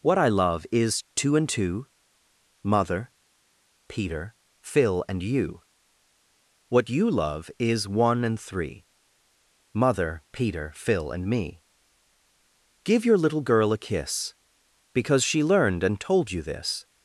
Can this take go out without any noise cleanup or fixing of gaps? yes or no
yes